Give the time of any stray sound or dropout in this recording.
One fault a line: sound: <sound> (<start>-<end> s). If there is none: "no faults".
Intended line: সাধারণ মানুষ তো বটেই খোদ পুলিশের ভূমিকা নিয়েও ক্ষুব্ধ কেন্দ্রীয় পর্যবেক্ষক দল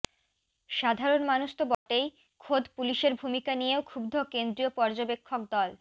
sound: dropout (1.7-1.9 s)